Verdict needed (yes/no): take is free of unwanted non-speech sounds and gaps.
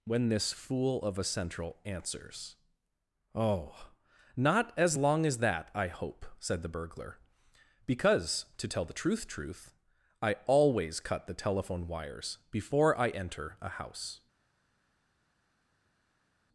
yes